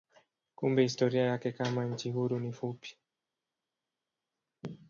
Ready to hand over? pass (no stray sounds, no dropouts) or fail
pass